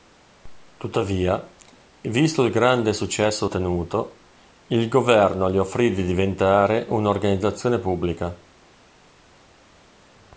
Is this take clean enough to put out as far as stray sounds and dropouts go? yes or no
yes